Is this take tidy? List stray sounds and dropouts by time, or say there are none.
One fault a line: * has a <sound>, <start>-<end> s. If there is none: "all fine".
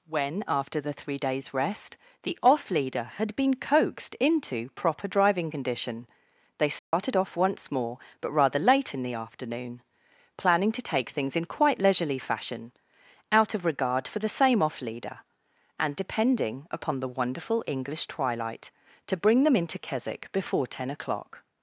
* has a dropout, 6.8-6.9 s